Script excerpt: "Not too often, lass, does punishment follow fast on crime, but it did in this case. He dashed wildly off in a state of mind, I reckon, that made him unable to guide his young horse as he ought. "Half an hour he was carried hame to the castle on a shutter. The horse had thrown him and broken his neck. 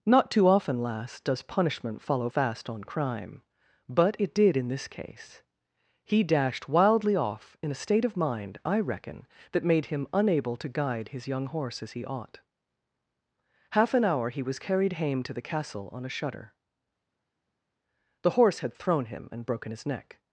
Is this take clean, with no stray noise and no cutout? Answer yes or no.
yes